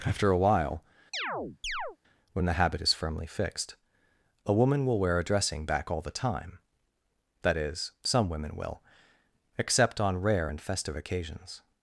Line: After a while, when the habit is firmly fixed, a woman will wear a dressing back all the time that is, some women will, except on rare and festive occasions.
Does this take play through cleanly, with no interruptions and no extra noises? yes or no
no